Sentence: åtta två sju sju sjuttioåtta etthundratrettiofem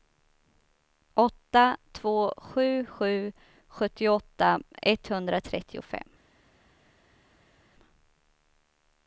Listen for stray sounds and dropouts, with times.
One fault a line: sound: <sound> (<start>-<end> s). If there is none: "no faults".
no faults